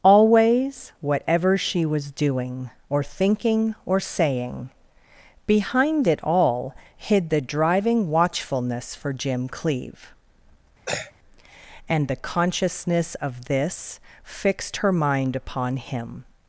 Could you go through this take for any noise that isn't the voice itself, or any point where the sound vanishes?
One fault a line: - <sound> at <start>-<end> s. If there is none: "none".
- throat clearing at 10.9-11.1 s